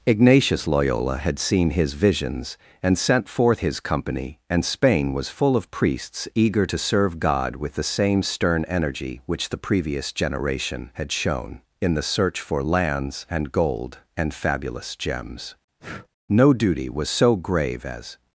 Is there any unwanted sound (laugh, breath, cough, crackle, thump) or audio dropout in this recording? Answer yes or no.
yes